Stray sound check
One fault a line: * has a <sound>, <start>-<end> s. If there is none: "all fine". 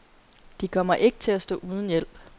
all fine